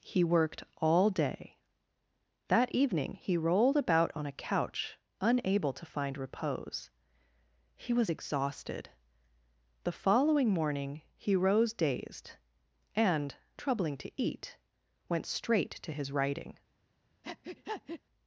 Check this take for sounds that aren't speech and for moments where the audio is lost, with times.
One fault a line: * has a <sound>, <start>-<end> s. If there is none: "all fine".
* has a breath, 17.2-18.0 s